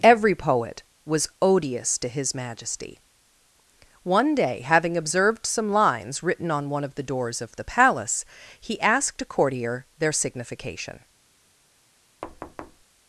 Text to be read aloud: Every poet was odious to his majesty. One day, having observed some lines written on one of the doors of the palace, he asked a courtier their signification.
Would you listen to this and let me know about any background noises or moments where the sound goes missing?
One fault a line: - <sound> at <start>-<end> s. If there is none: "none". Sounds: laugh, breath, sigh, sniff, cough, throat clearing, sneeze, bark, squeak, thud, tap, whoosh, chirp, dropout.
- thud at 12.2-12.8 s